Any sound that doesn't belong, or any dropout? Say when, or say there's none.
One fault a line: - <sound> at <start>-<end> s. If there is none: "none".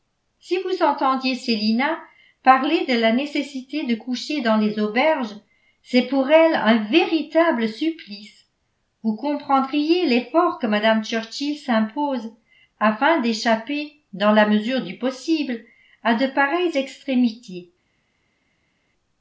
none